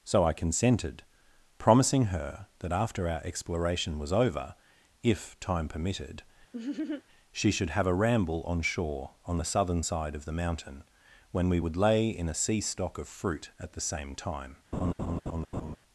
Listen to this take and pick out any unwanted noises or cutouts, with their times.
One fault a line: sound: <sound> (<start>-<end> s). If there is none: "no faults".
sound: laugh (6.5-7.0 s)
sound: laugh (14.7-15.8 s)